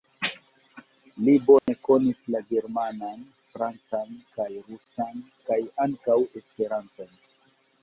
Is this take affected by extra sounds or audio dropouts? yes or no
yes